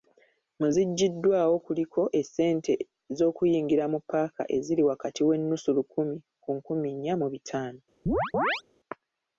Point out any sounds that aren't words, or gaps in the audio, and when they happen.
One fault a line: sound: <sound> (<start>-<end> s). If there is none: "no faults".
sound: chirp (8.1-8.6 s)